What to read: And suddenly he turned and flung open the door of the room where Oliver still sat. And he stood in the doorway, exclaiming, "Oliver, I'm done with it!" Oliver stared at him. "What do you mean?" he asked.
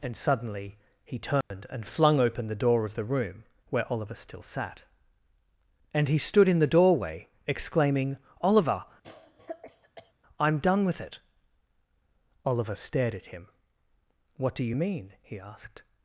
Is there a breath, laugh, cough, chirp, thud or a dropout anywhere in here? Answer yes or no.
yes